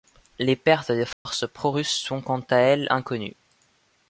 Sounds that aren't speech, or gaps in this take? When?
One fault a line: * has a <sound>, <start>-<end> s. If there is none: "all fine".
* has a dropout, 1.1-1.3 s